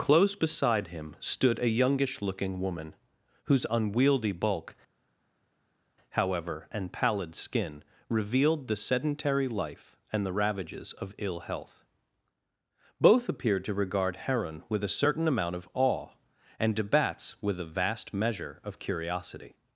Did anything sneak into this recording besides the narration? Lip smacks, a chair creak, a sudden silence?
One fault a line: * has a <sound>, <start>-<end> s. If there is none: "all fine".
all fine